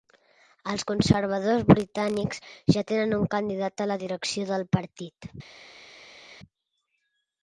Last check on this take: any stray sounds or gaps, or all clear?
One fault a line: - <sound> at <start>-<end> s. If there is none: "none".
none